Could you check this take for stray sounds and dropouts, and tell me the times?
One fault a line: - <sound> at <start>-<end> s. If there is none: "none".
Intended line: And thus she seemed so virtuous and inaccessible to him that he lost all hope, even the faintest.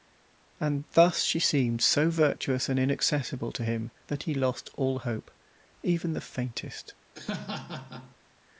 - laugh at 7.1-8.2 s